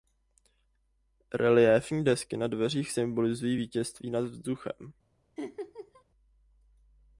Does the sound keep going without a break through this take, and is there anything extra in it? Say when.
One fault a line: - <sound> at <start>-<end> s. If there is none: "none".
- laugh at 5.4-6.0 s